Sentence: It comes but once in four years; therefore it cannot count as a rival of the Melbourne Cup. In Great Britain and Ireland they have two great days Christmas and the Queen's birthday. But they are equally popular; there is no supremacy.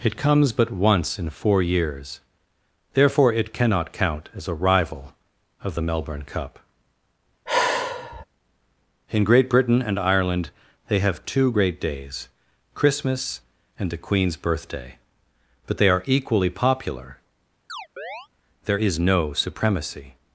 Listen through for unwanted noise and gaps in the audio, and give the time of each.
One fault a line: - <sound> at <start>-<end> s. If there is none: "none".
- sigh at 7.5-8.3 s
- chirp at 17.7-18.3 s